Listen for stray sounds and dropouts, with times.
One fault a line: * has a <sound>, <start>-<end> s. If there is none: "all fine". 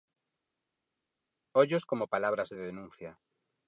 all fine